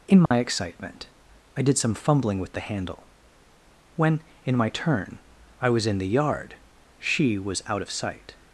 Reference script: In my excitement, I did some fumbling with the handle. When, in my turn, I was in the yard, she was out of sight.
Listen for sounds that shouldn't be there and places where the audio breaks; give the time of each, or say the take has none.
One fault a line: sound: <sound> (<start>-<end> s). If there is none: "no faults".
sound: dropout (0.3-0.3 s)